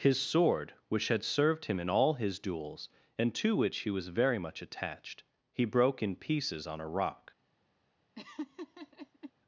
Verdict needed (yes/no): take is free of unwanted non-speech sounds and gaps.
no